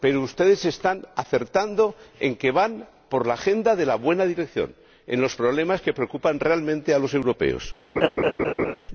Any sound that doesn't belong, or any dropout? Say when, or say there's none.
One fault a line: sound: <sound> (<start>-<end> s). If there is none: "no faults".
sound: laugh (8.0-8.8 s)